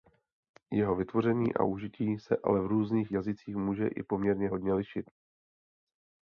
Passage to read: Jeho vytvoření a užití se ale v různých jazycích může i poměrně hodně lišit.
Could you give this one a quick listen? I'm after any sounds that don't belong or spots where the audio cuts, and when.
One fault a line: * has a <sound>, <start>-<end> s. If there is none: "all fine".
all fine